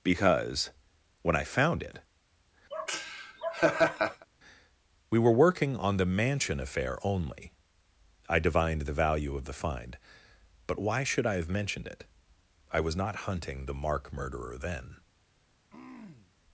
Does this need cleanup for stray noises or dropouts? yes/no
yes